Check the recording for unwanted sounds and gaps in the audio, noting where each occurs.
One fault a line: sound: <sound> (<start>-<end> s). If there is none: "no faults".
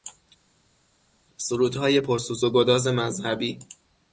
no faults